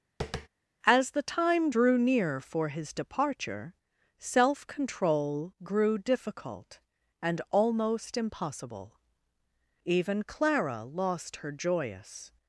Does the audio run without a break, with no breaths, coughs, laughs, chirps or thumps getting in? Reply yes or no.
no